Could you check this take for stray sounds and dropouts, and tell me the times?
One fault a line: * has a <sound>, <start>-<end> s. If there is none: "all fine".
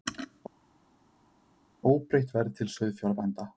all fine